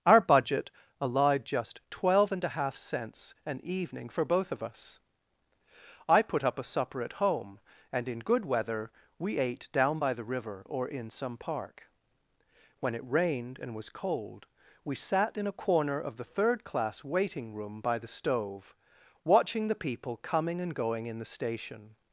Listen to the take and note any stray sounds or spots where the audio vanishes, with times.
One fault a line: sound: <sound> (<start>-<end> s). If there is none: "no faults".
no faults